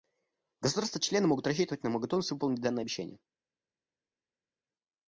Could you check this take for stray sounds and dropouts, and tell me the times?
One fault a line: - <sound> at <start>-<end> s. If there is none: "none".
none